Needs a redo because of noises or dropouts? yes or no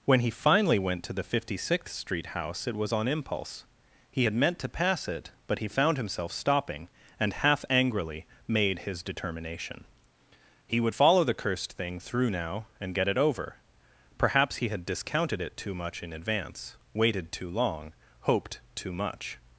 no